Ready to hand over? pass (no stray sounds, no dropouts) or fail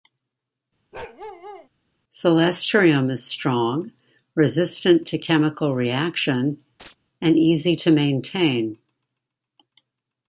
fail